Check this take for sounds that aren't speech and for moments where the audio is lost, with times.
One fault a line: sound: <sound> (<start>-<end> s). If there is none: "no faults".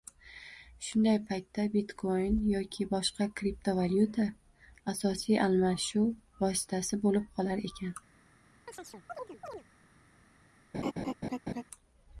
sound: chirp (8.7-9.6 s)
sound: laugh (10.7-11.6 s)